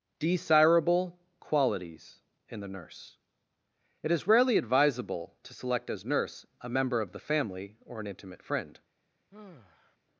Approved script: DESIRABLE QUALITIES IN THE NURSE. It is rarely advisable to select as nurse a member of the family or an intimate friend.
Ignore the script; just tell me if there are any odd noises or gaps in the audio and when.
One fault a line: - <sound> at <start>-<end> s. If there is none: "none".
- sigh at 9.3-10.0 s